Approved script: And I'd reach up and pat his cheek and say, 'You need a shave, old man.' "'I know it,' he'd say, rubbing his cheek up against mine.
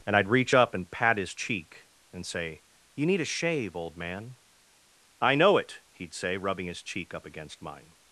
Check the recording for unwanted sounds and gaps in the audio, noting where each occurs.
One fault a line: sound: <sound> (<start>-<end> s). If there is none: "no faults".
no faults